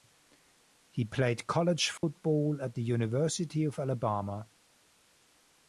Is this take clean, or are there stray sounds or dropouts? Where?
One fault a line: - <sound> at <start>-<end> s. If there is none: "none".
- dropout at 2.0-2.0 s